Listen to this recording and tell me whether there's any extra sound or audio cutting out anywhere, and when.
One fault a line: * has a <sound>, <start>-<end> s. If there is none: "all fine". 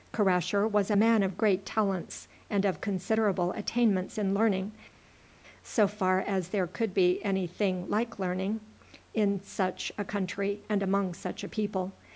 all fine